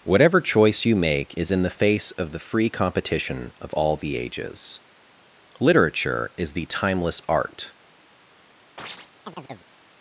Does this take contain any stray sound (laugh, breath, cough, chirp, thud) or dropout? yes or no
yes